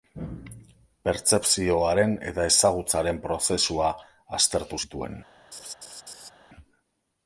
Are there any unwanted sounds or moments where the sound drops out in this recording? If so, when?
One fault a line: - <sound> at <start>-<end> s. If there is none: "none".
- laugh at 5.5-6.3 s